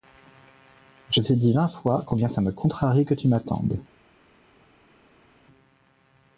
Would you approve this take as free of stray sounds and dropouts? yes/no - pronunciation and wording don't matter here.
yes